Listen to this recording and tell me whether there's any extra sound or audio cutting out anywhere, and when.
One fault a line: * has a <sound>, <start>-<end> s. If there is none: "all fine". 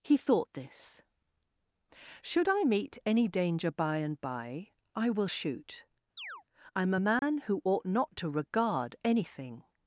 * has a chirp, 6.2-6.4 s
* has a dropout, 7.2-7.2 s